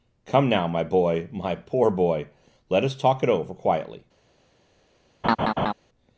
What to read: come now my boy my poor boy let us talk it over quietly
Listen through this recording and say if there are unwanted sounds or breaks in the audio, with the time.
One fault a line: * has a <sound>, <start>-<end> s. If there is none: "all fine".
* has a laugh, 5.2-5.7 s